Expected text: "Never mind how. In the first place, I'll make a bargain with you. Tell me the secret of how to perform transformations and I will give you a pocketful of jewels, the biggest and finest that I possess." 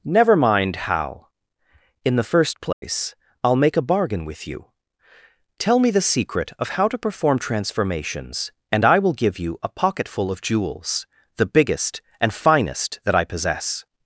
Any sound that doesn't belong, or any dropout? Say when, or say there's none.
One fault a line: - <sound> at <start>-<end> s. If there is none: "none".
- dropout at 2.7-2.8 s